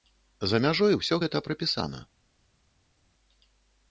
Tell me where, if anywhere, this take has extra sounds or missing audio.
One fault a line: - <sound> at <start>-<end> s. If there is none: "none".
none